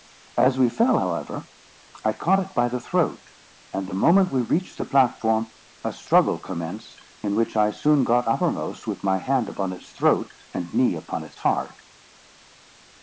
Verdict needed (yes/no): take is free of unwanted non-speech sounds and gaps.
yes